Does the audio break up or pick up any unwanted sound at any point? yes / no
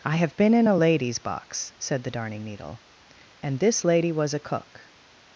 no